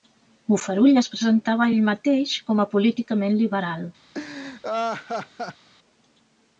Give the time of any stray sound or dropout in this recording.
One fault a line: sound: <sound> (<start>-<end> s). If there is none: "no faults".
sound: laugh (4.1-5.7 s)